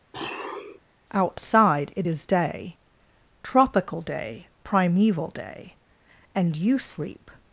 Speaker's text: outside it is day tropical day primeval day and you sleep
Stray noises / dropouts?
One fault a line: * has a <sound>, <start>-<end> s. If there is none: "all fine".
* has a sniff, 0.1-0.8 s